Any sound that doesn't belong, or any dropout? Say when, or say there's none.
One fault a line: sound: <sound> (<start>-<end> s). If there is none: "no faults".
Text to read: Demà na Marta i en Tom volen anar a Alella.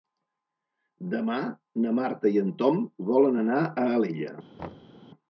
sound: thud (4.6-5.0 s)